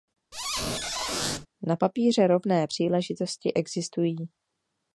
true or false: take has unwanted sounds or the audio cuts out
true